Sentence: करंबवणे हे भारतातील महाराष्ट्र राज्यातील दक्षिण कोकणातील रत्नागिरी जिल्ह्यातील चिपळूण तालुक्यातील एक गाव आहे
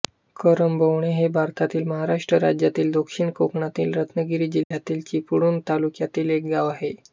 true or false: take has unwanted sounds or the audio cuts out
true